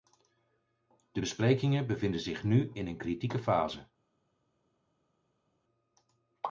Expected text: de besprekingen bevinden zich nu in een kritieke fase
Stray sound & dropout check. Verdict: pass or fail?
pass